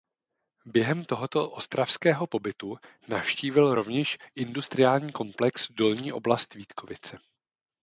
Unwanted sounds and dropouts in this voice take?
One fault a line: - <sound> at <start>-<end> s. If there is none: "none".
none